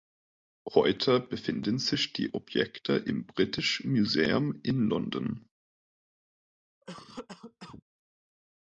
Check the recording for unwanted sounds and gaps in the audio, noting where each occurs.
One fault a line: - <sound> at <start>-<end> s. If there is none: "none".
- cough at 6.8-7.8 s